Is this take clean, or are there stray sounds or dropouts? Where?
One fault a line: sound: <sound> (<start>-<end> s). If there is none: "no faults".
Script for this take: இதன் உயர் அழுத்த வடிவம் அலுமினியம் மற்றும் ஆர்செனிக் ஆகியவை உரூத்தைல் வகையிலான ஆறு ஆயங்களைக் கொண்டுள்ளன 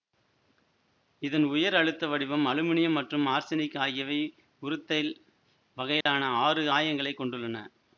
sound: dropout (6.0-6.1 s)